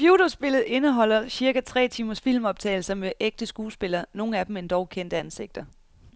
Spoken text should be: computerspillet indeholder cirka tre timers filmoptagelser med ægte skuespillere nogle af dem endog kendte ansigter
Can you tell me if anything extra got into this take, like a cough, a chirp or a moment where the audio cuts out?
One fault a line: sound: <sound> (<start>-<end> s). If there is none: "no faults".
no faults